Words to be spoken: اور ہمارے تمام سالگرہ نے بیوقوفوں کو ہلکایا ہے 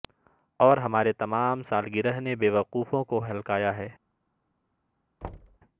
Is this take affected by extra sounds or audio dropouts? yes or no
yes